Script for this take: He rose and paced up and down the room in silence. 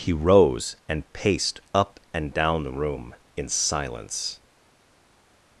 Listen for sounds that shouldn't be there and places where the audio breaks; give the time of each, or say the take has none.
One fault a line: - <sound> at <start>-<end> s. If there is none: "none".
none